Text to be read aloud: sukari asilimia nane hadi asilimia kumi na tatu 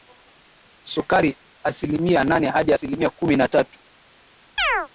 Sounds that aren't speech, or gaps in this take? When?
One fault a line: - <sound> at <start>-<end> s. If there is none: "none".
- chirp at 4.6-4.9 s